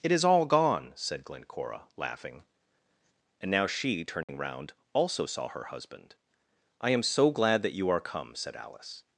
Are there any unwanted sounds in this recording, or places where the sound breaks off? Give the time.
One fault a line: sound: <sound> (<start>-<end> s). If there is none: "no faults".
sound: dropout (4.2-4.3 s)